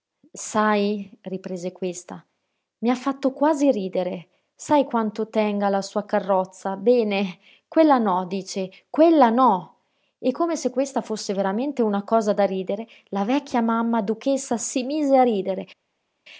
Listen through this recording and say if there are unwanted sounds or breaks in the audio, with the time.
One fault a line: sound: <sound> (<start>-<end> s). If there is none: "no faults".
no faults